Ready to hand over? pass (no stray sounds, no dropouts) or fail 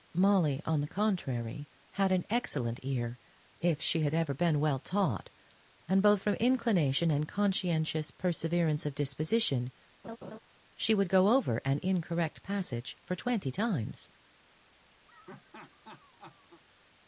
fail